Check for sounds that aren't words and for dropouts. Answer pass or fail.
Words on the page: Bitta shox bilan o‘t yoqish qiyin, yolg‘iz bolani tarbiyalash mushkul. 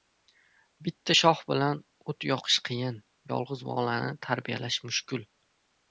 pass